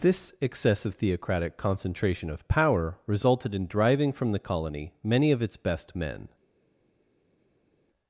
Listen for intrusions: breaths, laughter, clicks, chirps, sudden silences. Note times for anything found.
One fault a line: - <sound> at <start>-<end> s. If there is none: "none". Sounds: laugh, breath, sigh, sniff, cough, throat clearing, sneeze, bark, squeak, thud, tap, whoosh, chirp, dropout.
none